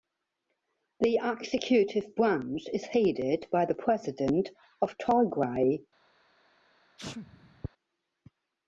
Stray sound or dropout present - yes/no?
yes